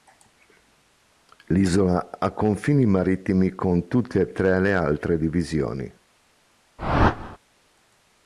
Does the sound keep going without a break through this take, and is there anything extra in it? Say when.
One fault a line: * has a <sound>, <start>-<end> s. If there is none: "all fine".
* has a whoosh, 6.8-7.4 s